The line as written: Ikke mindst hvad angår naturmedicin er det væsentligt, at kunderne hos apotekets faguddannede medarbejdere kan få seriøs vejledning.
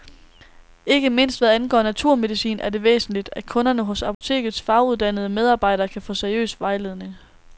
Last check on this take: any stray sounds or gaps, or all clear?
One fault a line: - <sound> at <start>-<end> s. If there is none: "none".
- dropout at 4.1-4.2 s